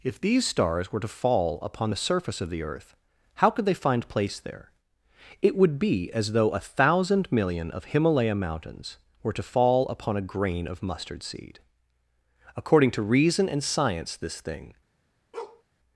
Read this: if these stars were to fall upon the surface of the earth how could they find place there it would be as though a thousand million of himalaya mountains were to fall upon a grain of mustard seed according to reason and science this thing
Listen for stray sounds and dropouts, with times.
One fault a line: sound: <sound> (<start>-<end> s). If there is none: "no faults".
sound: bark (15.3-15.6 s)